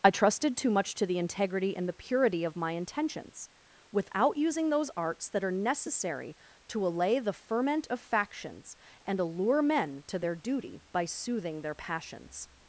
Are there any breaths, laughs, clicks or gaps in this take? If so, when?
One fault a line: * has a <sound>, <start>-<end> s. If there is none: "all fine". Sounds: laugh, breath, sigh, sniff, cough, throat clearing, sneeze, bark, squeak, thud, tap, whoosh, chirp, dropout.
all fine